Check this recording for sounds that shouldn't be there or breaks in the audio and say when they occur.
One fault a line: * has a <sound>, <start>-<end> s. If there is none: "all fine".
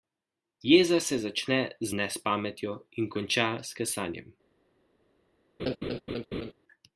* has a laugh, 5.6-6.5 s